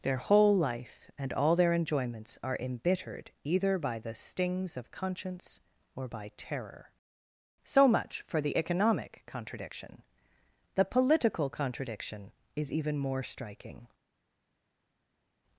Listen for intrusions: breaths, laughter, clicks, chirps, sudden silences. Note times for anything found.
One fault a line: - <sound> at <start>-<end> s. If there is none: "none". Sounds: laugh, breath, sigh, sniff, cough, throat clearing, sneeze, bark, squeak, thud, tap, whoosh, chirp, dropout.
none